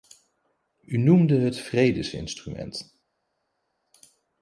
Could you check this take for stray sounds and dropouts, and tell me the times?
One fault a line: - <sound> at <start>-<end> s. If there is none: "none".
none